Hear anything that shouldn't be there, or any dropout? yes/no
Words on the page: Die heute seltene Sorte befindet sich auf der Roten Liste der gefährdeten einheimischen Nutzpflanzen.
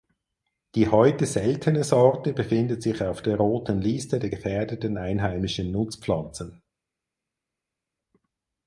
no